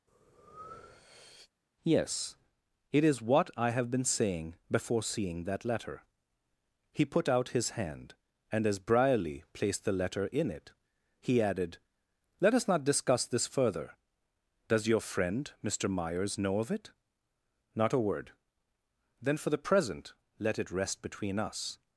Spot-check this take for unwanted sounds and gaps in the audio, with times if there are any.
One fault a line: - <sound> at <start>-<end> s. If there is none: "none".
- breath at 0.1-1.5 s